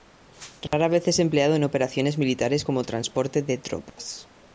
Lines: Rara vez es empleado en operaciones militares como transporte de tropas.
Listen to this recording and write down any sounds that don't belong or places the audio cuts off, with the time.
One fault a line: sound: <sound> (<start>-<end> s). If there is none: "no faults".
sound: dropout (0.7-0.7 s)
sound: dropout (3.9-4.0 s)